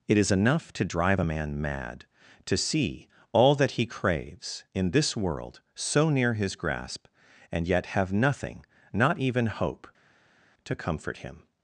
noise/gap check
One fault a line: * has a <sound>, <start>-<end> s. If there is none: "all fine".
all fine